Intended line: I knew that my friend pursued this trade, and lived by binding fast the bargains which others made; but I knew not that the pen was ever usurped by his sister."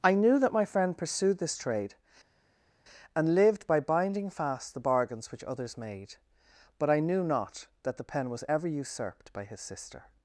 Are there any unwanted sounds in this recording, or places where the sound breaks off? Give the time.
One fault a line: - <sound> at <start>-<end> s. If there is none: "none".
none